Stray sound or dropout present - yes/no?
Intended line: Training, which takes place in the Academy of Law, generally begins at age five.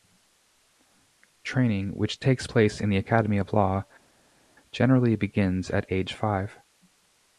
no